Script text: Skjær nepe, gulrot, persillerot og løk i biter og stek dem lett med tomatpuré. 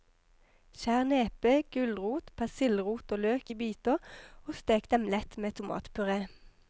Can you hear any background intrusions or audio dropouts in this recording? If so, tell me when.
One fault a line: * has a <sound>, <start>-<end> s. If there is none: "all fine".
all fine